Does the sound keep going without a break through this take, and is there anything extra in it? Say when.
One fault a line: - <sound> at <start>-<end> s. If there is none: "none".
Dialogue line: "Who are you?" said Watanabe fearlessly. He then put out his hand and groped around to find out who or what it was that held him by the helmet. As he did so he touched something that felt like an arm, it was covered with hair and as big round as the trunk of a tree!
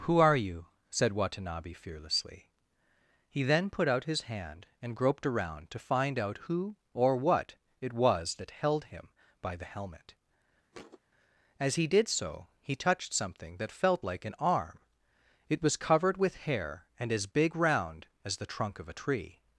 - thud at 10.7-11.0 s